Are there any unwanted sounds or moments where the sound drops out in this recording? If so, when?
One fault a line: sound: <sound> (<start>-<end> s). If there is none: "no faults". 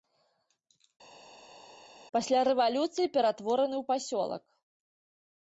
no faults